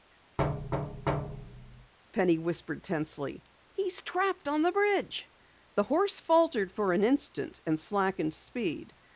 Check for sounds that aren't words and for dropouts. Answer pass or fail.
fail